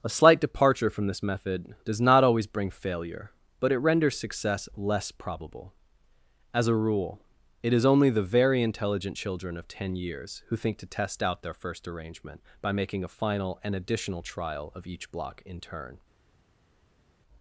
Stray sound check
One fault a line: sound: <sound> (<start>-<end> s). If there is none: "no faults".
no faults